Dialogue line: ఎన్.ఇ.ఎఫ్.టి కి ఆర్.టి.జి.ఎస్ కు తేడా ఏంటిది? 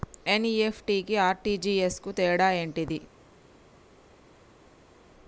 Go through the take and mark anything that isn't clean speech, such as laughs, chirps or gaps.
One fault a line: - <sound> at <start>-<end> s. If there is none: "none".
none